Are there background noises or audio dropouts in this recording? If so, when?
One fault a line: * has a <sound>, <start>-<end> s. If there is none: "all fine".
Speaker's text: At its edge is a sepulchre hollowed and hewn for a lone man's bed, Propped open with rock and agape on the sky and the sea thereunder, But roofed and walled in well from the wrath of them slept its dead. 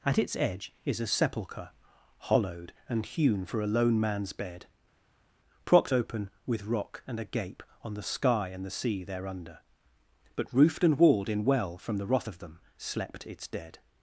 all fine